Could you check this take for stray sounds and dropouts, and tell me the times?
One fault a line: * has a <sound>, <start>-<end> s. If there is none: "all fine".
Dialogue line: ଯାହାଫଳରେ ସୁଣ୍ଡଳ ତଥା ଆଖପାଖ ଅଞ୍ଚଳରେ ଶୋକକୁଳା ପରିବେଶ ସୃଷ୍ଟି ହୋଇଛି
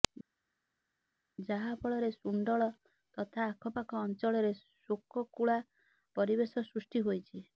all fine